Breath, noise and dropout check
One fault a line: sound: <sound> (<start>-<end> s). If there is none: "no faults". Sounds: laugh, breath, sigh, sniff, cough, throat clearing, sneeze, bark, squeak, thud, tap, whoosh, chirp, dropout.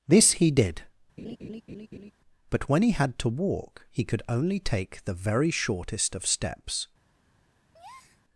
sound: laugh (1.2-2.1 s)
sound: breath (7.7-8.2 s)